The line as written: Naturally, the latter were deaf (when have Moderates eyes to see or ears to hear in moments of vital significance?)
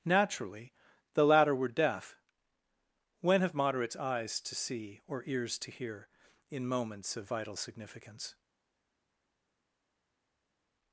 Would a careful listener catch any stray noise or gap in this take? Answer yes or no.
no